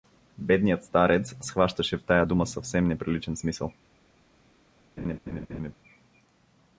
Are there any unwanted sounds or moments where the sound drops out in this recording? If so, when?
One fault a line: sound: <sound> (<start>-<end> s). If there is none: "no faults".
sound: laugh (5.0-5.8 s)